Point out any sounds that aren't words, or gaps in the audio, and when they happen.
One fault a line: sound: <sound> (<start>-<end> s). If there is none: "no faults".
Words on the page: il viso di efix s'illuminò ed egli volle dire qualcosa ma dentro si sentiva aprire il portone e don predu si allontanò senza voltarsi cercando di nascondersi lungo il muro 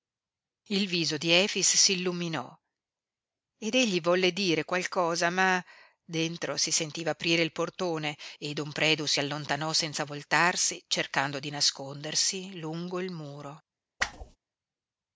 sound: whoosh (14.0-14.4 s)